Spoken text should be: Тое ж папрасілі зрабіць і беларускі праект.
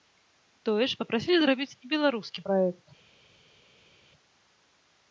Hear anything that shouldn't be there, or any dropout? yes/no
no